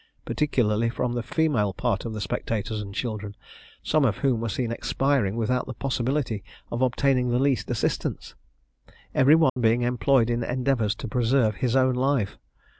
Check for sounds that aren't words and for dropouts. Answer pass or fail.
fail